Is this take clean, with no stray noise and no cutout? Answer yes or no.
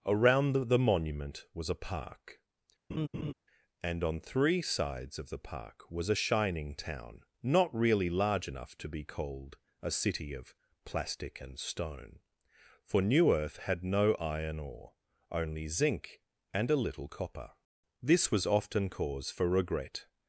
no